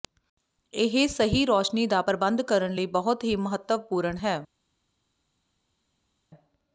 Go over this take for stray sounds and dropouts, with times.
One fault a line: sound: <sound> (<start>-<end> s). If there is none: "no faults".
no faults